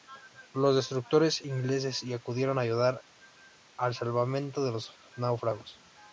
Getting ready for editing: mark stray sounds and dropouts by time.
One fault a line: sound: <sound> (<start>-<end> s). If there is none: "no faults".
no faults